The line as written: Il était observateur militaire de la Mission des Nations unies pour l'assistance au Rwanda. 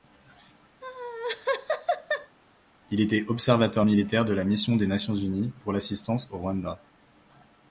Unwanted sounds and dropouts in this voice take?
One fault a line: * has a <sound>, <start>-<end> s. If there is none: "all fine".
* has a laugh, 0.8-2.4 s